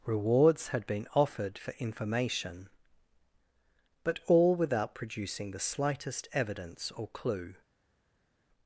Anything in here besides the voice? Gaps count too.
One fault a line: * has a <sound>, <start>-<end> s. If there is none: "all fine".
all fine